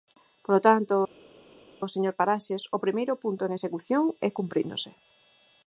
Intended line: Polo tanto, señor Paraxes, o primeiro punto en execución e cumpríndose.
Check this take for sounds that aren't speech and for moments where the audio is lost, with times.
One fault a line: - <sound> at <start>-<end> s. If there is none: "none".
none